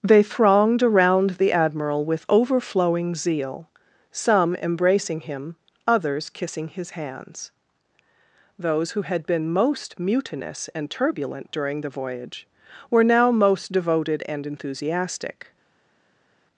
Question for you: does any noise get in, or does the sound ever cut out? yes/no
no